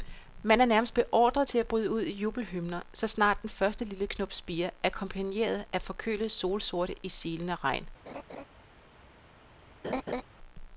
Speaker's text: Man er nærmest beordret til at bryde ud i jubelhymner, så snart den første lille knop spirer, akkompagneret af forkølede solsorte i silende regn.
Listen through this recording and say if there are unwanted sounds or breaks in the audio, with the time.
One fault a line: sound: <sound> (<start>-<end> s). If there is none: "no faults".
sound: laugh (8.1-8.4 s)
sound: laugh (9.8-10.2 s)